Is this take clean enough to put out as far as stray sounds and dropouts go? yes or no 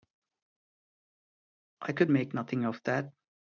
yes